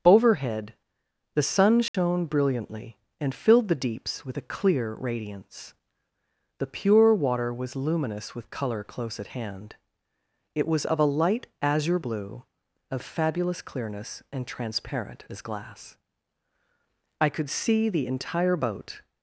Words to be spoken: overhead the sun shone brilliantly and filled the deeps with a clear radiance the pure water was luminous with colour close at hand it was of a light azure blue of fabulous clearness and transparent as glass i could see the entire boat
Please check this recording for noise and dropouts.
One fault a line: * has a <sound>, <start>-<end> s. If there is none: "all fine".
* has a dropout, 1.9-1.9 s